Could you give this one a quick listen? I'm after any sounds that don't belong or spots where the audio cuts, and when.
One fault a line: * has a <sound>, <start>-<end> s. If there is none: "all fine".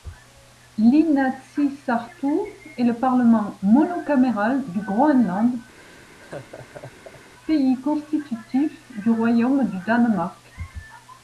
* has a laugh, 5.7-7.3 s